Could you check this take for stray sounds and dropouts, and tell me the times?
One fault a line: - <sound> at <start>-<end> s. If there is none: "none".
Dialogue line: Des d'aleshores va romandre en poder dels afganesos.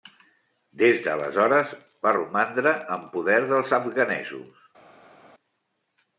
none